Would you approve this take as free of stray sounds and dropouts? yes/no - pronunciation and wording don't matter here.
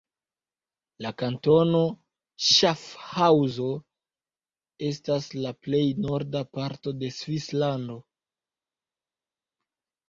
yes